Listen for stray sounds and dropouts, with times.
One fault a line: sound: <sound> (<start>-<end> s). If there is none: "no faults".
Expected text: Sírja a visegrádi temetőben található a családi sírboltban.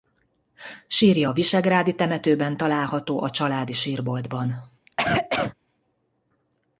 sound: cough (4.9-5.5 s)